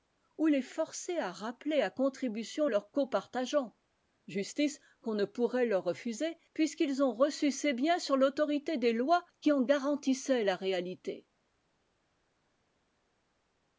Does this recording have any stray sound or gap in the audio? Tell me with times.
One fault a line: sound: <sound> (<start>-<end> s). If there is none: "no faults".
no faults